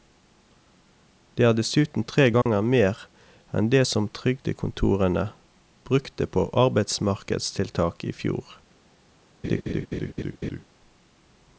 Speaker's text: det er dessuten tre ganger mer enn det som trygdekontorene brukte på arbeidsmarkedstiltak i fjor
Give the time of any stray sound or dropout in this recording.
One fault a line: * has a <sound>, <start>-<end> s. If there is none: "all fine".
* has a dropout, 2.4-2.5 s
* has a laugh, 9.4-10.6 s